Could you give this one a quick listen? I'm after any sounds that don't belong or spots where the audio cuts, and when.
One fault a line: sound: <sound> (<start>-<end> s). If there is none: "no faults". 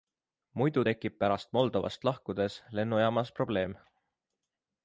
no faults